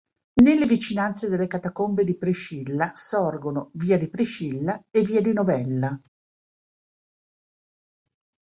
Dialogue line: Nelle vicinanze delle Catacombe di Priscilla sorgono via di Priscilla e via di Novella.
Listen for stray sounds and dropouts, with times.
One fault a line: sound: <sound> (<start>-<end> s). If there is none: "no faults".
no faults